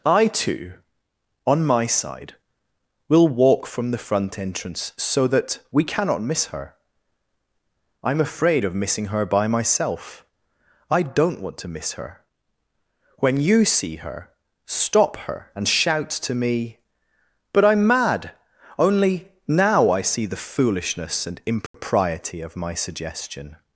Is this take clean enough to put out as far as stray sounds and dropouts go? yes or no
no